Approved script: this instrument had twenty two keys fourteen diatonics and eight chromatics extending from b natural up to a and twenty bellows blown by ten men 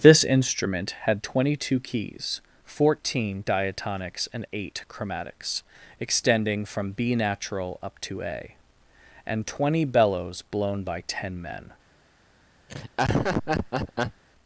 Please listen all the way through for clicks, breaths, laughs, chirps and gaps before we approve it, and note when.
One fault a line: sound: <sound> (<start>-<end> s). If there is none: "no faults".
sound: laugh (12.7-14.2 s)